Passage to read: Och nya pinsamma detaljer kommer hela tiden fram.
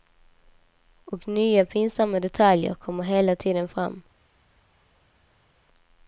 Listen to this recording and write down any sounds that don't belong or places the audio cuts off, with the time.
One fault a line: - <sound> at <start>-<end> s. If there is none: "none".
none